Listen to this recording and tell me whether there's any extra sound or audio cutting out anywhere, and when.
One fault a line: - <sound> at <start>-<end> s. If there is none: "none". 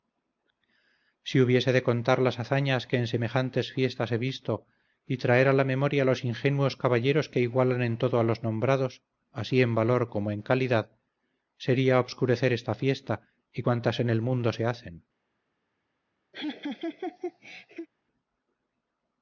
- laugh at 16.3-17.9 s